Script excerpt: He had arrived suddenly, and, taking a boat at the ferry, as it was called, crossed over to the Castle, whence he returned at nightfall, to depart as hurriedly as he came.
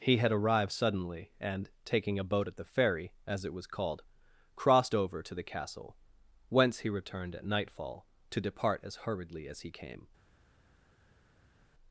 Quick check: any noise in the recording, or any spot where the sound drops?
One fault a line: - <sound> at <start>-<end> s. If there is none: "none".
none